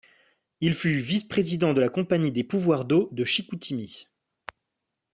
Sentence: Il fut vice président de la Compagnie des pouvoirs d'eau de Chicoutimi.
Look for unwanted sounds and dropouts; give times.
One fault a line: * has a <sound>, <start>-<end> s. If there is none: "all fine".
all fine